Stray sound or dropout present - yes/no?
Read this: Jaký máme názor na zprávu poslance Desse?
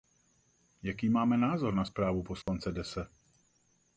yes